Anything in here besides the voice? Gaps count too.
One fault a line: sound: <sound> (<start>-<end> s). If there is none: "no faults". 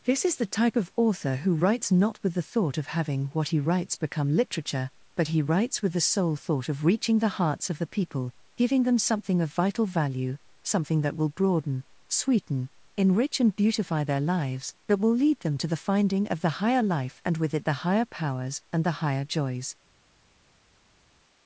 no faults